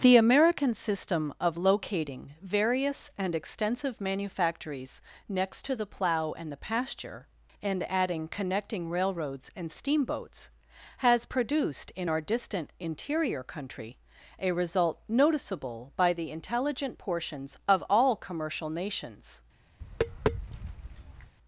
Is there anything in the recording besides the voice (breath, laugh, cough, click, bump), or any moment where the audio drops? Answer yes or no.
yes